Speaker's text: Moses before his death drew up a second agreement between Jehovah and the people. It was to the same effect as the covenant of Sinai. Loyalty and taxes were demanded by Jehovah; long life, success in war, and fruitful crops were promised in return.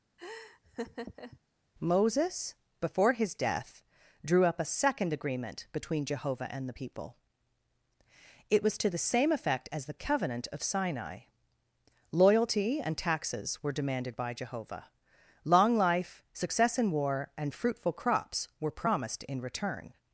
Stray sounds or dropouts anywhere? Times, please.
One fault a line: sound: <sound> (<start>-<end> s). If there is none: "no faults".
sound: laugh (0.2-1.4 s)